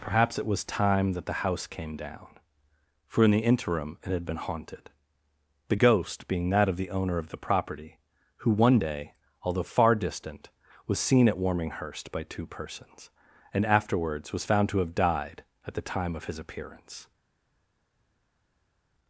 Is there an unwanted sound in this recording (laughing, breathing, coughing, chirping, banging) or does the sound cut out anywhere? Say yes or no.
no